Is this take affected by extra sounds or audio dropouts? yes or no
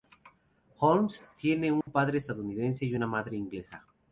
yes